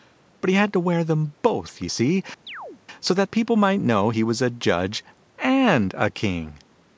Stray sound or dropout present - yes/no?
yes